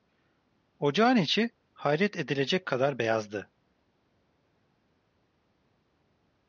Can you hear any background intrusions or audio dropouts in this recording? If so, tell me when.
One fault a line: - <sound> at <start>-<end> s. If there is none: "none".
none